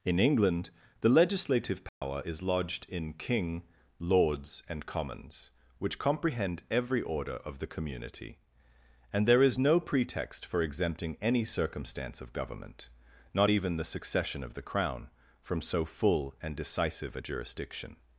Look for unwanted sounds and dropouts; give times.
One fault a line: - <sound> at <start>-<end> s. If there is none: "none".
- dropout at 1.9-2.0 s